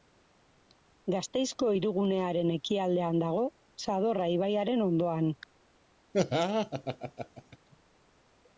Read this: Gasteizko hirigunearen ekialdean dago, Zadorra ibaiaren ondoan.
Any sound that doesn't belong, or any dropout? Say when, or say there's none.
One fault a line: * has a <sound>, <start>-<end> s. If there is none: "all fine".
* has a laugh, 6.1-7.6 s